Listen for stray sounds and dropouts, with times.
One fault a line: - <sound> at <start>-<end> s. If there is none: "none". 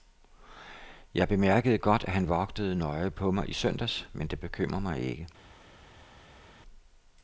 none